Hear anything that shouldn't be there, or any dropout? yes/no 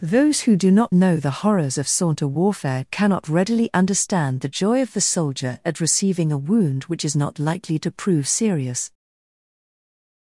no